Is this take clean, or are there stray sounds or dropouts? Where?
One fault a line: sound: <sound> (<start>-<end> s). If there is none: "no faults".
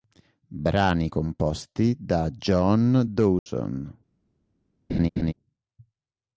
sound: dropout (3.4-3.5 s)
sound: laugh (4.9-5.3 s)